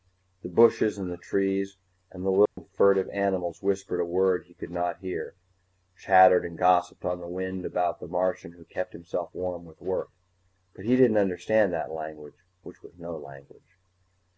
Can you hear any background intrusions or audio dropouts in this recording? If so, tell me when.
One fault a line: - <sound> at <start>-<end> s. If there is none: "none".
- dropout at 2.5-2.6 s